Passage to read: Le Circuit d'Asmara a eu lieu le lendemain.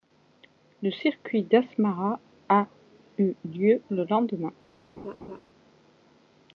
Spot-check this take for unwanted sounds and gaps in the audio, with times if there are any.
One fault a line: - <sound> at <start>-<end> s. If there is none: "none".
- laugh at 5.0-5.4 s